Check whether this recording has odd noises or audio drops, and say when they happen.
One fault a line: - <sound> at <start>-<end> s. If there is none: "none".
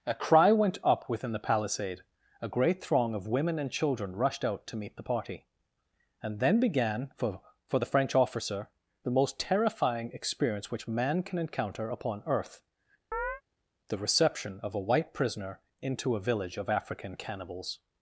- chirp at 13.1-13.4 s